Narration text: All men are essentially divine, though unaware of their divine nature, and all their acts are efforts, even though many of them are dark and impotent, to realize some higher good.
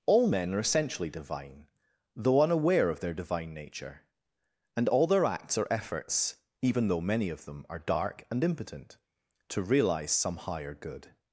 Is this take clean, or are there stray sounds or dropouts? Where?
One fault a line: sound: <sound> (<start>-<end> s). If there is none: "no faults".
no faults